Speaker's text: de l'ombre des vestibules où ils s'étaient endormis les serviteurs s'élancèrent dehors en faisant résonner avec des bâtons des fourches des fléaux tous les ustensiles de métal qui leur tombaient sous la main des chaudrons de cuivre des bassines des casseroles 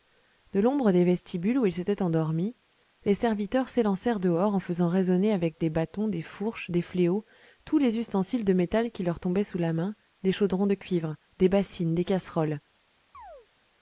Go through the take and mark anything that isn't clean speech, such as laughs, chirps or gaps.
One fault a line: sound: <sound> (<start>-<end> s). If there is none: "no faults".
sound: chirp (13.1-13.5 s)